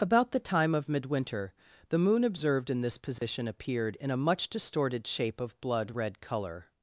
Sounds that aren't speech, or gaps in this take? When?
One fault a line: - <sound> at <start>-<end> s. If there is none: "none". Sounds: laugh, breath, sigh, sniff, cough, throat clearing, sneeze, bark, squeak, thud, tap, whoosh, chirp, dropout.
- dropout at 3.2-3.2 s